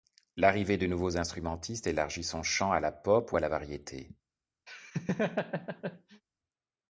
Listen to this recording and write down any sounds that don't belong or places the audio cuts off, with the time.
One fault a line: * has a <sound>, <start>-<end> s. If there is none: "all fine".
* has a laugh, 4.7-6.2 s